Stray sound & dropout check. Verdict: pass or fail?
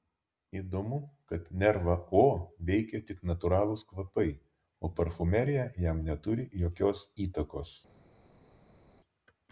pass